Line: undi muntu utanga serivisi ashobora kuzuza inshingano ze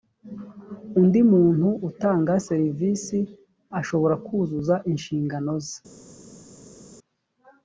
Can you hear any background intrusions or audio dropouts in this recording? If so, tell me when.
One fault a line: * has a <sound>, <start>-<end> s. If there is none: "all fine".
all fine